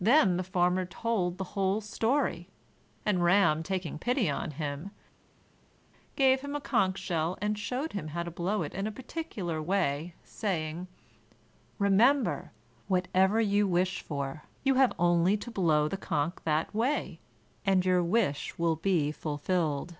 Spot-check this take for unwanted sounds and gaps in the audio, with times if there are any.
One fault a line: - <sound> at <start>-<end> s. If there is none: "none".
none